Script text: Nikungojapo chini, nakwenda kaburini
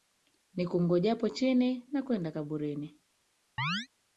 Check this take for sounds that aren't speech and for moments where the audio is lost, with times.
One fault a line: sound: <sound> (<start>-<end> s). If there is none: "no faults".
sound: chirp (3.6-3.9 s)